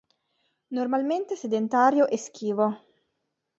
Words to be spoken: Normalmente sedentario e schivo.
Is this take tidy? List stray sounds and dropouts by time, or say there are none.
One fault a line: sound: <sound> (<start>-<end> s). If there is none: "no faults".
no faults